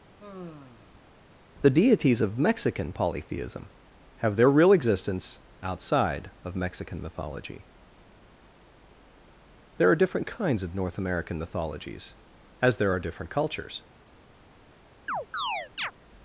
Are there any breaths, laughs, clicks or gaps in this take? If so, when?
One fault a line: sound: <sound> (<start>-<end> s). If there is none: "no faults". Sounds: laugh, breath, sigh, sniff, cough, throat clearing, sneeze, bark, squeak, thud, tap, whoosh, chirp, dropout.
sound: sigh (0.2-1.1 s)
sound: chirp (15.1-15.9 s)